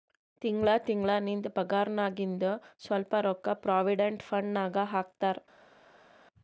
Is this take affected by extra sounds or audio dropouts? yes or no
no